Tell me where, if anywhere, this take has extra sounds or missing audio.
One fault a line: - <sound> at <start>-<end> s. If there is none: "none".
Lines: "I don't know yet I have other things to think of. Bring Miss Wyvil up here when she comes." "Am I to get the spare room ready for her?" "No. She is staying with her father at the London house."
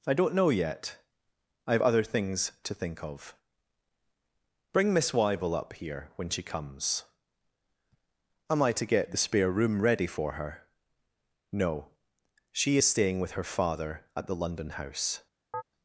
- chirp at 15.5-15.6 s